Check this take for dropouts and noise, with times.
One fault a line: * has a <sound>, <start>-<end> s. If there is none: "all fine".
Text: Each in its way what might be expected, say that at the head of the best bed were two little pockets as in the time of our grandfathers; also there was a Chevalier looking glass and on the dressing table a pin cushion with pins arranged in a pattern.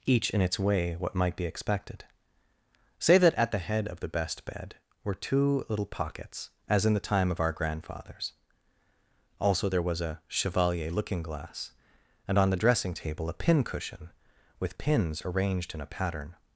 all fine